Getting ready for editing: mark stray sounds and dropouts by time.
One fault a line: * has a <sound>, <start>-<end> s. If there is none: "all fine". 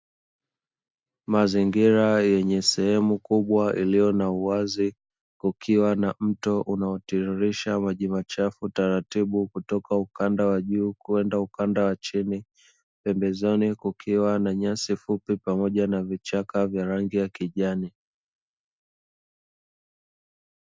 all fine